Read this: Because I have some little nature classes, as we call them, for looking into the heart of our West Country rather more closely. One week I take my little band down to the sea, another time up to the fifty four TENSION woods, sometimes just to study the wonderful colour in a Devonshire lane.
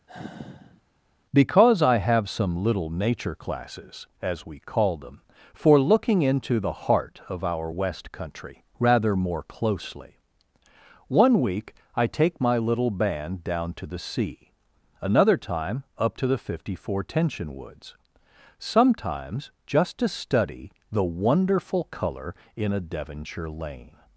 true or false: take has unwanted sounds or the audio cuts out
true